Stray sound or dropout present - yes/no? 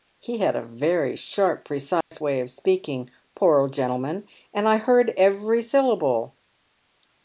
yes